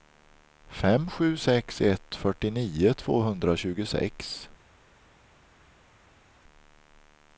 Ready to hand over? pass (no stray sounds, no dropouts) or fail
pass